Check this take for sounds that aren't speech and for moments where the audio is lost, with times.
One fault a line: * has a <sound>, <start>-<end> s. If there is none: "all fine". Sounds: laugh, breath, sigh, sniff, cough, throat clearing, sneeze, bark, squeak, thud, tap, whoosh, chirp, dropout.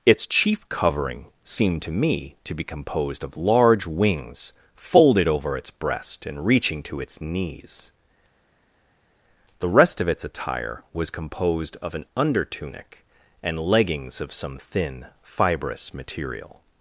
all fine